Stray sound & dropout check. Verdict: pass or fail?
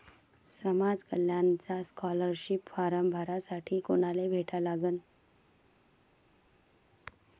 pass